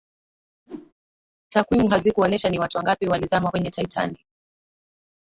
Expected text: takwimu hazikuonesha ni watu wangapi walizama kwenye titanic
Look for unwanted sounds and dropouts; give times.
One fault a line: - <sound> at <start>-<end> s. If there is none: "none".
- whoosh at 0.7-0.9 s